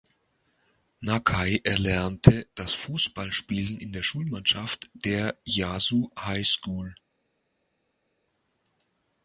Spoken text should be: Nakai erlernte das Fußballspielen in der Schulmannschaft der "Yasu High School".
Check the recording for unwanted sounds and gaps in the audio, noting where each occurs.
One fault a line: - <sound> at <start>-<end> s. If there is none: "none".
none